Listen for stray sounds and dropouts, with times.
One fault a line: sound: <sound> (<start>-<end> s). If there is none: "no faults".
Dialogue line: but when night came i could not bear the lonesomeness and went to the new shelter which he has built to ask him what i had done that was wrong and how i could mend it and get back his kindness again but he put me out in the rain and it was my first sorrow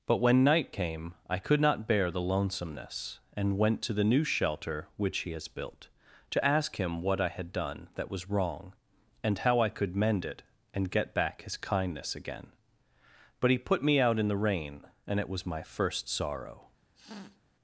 sound: sniff (16.9-17.4 s)